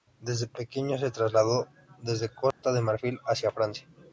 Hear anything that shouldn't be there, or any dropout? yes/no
yes